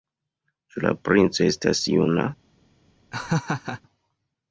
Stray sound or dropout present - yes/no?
yes